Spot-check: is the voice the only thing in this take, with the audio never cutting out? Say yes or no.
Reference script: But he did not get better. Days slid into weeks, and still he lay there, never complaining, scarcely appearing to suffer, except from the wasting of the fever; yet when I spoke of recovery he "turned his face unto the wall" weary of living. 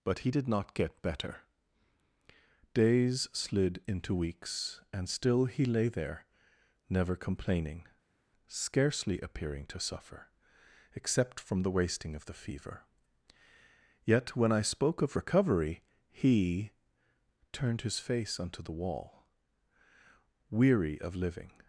yes